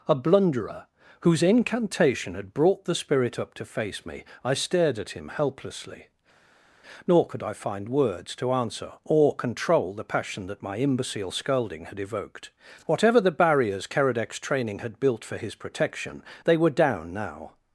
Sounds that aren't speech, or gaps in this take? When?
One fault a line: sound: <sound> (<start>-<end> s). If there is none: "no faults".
no faults